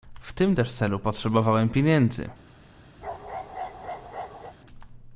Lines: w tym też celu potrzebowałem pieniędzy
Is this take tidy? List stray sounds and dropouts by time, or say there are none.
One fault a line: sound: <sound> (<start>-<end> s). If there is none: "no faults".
sound: bark (3.0-4.6 s)